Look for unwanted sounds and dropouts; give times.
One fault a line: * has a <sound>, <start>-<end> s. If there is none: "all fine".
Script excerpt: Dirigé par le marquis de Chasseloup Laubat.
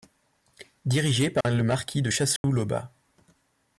* has a dropout, 1.4-1.4 s
* has a dropout, 2.4-2.4 s